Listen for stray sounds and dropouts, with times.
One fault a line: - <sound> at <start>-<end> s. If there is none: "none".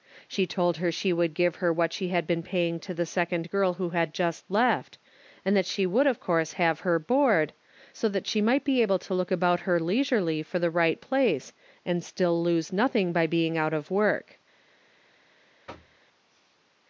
- thud at 15.7-16.0 s